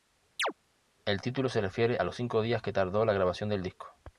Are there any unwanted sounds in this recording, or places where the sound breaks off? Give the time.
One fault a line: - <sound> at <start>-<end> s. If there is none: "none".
- chirp at 0.4-0.5 s